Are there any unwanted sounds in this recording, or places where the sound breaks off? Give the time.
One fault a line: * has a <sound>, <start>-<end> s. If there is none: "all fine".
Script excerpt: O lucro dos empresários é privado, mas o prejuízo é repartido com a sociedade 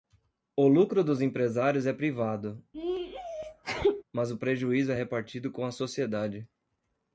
* has a sneeze, 2.7-4.0 s